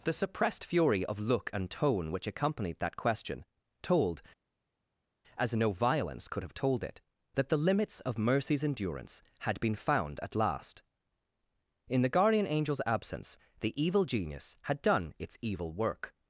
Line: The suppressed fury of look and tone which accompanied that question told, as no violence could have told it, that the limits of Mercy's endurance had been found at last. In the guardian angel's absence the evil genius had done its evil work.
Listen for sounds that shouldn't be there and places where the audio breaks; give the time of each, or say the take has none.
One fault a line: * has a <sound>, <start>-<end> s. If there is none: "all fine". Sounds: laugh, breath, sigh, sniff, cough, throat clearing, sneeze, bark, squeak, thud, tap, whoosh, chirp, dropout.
all fine